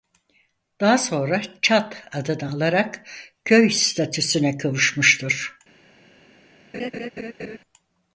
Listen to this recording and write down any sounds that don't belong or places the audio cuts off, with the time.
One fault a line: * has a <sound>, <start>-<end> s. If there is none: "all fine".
* has a laugh, 6.7-7.6 s